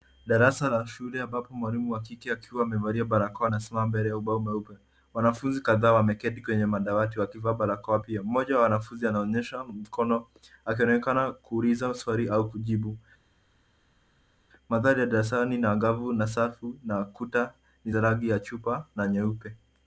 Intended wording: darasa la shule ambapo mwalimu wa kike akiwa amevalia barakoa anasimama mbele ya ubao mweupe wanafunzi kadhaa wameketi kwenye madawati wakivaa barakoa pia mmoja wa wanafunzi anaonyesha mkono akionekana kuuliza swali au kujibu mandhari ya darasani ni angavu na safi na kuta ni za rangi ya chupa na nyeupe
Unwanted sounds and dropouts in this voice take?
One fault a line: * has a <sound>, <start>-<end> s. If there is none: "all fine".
all fine